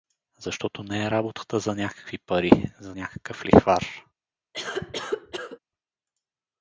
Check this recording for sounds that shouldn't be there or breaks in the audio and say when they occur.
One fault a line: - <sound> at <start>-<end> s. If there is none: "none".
- cough at 4.5-5.6 s